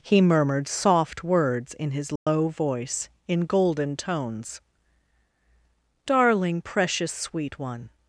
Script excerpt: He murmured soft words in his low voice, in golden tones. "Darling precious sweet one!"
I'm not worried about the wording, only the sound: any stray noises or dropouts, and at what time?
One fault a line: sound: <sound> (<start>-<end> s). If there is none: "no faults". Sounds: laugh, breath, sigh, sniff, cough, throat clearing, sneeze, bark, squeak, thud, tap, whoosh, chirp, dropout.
sound: dropout (2.2-2.3 s)